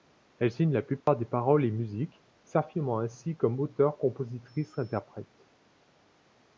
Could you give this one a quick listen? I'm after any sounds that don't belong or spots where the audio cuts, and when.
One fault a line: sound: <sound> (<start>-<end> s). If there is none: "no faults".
sound: dropout (1.0-1.1 s)